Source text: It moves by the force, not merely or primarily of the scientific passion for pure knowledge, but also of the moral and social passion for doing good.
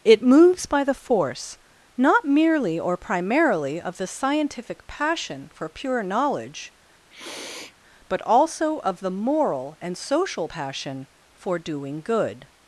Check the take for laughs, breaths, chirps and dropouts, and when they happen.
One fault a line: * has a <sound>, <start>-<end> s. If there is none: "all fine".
* has a sniff, 7.1-7.7 s